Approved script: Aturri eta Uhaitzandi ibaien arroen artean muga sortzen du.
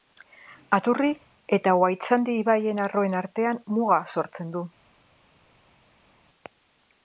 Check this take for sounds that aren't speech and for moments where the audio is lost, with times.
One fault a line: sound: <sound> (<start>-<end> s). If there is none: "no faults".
no faults